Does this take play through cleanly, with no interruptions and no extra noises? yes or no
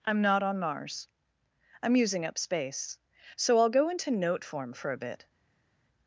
yes